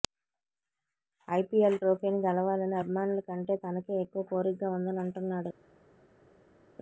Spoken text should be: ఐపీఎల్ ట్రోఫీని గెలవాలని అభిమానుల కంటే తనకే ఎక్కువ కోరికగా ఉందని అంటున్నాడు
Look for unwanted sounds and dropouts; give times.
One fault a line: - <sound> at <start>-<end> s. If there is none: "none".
none